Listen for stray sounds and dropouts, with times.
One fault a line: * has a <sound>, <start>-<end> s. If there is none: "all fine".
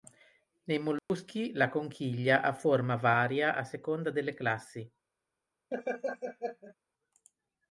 * has a dropout, 1.0-1.1 s
* has a laugh, 5.7-6.8 s